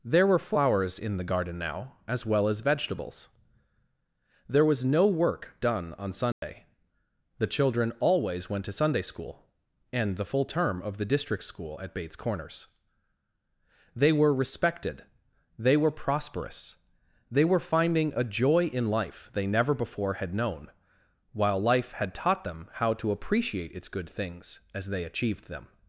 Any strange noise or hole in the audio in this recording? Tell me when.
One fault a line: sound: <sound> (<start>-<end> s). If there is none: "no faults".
sound: dropout (6.3-6.4 s)